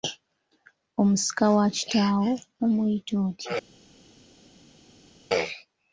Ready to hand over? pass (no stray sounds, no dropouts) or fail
pass